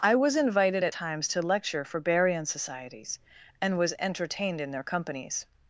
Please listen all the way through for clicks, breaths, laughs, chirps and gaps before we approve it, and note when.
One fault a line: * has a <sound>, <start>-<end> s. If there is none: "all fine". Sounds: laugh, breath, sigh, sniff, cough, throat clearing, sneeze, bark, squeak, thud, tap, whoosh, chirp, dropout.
all fine